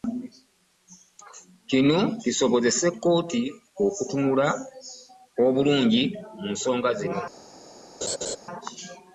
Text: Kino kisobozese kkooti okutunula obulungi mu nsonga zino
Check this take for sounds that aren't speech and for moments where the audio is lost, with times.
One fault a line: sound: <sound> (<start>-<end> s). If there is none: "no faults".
sound: laugh (8.0-8.4 s)